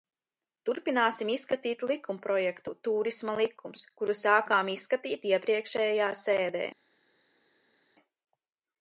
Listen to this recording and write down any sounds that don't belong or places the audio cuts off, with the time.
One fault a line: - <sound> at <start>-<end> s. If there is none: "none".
none